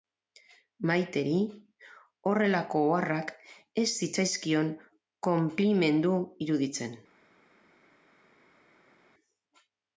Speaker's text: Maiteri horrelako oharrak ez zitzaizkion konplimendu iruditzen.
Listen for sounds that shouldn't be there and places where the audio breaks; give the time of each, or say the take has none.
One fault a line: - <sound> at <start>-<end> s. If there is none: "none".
none